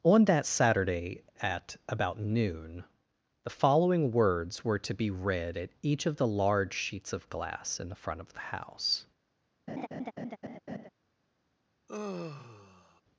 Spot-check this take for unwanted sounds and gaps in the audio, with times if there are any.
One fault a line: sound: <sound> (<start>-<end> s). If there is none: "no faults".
sound: laugh (9.7-10.9 s)
sound: sigh (11.9-13.0 s)